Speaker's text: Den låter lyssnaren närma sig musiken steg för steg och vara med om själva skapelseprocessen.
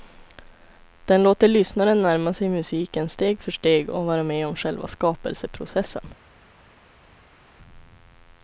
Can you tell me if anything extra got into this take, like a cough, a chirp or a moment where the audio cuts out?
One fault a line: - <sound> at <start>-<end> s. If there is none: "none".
none